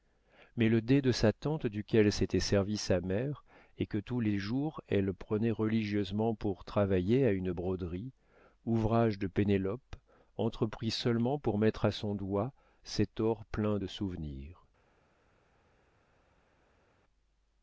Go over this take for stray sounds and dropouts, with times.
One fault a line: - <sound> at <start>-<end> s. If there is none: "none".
none